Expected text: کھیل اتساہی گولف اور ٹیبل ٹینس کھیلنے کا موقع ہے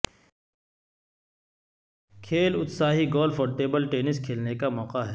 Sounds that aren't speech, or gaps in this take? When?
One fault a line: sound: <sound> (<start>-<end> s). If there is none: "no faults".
no faults